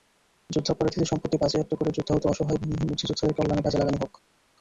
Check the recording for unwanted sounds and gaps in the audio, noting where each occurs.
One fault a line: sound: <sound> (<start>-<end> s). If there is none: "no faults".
no faults